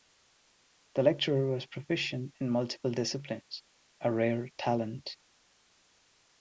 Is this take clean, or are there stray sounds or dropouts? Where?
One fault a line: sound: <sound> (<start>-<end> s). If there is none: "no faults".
no faults